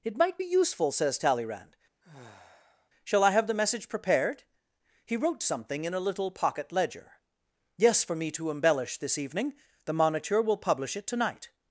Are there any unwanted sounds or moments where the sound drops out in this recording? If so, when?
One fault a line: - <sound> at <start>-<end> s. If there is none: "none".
- sigh at 2.0-2.9 s